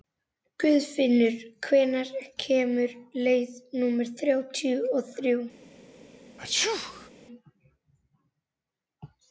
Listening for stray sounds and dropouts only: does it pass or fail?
fail